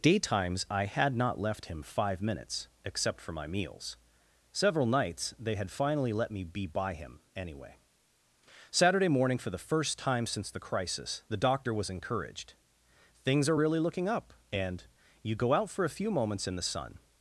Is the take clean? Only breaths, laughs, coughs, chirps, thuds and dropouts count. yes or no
yes